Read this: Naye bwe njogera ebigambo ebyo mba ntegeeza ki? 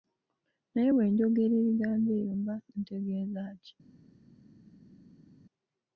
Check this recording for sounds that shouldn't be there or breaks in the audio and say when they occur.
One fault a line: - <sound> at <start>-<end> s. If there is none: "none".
none